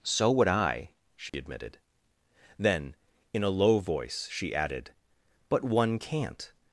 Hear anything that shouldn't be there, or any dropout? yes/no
yes